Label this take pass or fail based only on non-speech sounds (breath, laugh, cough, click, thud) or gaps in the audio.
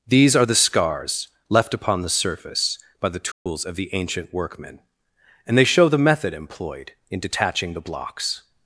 fail